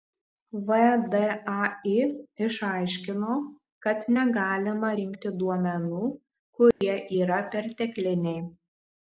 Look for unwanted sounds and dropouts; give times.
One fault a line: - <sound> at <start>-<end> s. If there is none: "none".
- dropout at 6.7-6.8 s